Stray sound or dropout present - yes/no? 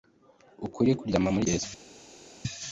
no